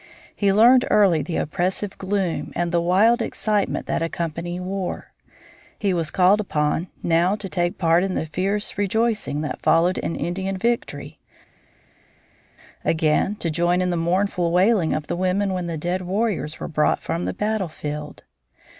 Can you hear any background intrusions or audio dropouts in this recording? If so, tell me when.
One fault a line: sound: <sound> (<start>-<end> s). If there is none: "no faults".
no faults